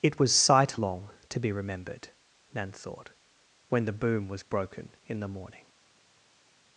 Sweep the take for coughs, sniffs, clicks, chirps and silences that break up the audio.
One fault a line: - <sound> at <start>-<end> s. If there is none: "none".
none